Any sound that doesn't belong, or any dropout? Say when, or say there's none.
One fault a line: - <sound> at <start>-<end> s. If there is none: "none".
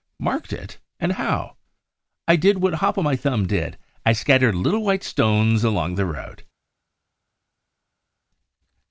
none